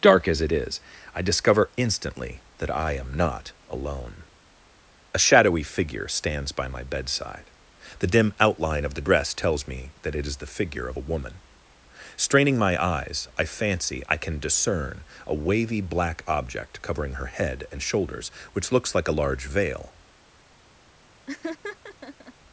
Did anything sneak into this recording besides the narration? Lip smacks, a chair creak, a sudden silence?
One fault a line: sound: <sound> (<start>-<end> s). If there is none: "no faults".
sound: laugh (21.3-22.3 s)